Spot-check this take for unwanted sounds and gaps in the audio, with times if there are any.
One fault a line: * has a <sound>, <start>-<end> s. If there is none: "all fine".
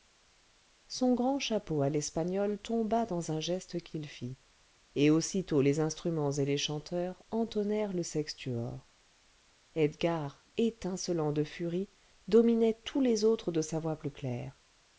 all fine